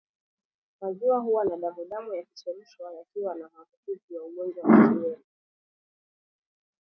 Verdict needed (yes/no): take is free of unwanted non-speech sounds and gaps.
yes